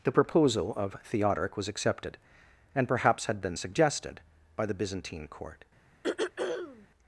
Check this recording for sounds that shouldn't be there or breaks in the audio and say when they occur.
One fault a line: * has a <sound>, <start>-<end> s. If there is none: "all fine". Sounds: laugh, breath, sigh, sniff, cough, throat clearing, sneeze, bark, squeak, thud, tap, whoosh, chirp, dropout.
* has a throat clearing, 6.0-6.9 s